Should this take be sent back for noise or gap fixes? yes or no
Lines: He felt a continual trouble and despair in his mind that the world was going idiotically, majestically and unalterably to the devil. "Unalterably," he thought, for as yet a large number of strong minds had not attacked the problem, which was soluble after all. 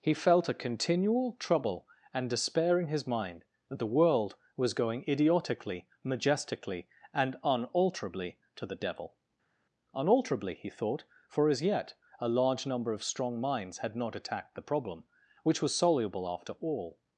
no